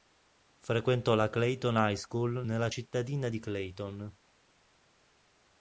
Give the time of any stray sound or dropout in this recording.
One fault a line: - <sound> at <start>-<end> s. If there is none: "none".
none